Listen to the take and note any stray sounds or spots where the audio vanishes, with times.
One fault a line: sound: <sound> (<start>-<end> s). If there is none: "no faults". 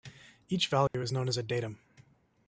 sound: dropout (0.9-0.9 s)